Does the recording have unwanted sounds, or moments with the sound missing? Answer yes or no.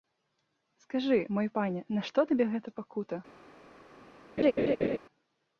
yes